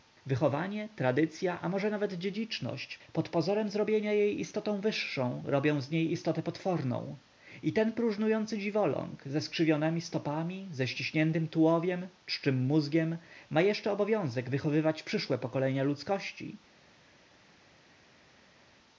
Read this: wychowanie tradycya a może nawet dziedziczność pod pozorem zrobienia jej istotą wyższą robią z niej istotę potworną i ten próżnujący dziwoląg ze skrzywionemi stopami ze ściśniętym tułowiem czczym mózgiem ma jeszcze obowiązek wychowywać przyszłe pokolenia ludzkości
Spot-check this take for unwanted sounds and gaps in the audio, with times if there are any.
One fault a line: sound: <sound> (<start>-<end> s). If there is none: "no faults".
no faults